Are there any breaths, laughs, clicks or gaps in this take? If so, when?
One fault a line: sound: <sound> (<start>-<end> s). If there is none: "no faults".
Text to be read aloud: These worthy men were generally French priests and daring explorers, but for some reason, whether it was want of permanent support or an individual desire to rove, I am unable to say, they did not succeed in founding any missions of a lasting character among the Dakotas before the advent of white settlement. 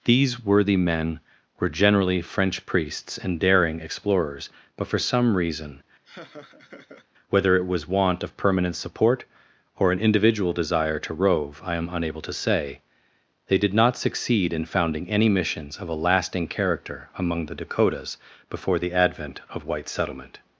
sound: laugh (6.0-7.1 s)